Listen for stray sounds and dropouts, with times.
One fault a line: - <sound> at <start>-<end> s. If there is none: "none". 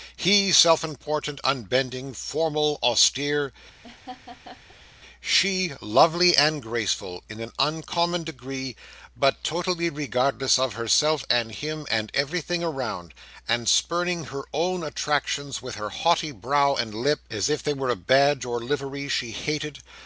- laugh at 3.8-5.0 s